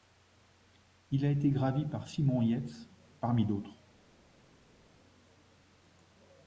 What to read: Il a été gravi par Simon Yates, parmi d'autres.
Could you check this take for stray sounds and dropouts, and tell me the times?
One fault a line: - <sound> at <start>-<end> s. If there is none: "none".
none